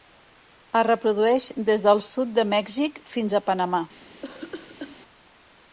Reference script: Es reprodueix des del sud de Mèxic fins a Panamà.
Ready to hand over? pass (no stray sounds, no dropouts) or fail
fail